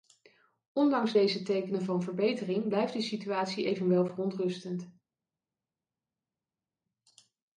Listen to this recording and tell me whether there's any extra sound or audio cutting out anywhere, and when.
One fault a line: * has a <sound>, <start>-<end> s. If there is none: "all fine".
all fine